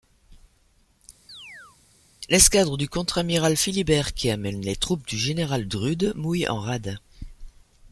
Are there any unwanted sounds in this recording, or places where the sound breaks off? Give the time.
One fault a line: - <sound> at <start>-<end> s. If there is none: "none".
- chirp at 1.3-1.8 s